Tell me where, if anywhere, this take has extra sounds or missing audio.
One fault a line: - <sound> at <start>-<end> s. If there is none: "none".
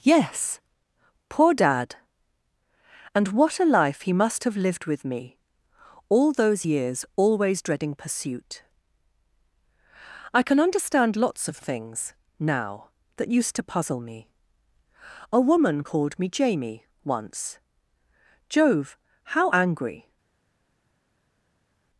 none